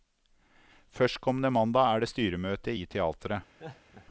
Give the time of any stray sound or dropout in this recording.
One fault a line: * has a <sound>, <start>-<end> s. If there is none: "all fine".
* has a laugh, 3.6-4.1 s